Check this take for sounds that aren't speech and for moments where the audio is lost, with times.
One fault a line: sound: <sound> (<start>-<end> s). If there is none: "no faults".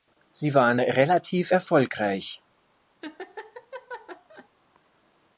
sound: laugh (3.0-4.5 s)